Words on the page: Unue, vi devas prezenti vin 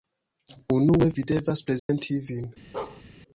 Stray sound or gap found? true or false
true